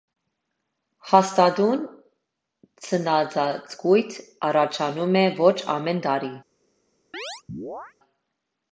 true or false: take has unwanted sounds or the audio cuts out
true